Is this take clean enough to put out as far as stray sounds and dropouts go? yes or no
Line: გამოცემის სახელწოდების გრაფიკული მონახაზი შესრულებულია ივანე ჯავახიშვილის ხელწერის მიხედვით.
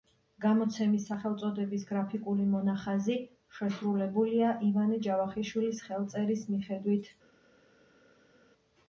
yes